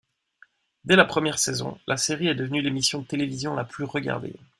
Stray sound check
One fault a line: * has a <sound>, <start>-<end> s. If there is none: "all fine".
all fine